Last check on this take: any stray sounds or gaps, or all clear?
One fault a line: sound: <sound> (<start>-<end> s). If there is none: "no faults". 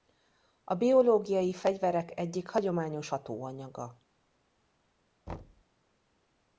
sound: thud (5.3-5.6 s)